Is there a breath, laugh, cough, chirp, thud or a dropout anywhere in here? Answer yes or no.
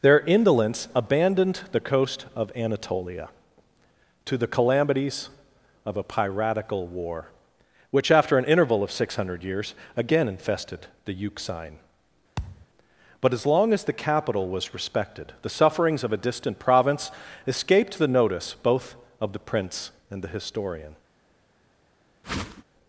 yes